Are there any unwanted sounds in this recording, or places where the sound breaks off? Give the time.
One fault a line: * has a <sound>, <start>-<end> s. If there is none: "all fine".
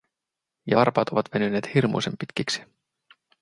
all fine